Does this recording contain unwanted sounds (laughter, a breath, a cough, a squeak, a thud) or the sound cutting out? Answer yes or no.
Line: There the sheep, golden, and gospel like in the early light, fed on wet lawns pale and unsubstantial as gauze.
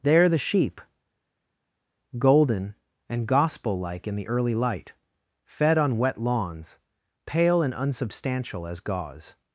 no